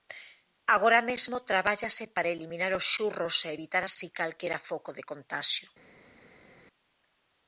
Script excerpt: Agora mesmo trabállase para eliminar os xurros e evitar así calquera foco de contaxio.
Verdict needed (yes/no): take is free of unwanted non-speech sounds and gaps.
yes